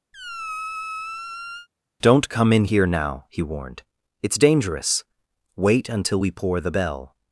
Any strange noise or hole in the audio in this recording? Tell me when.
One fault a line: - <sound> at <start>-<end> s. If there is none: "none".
- squeak at 0.1-1.7 s